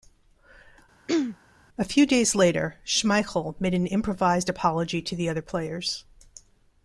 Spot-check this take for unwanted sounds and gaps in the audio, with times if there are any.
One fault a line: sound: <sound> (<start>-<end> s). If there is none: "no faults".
sound: throat clearing (1.1-1.4 s)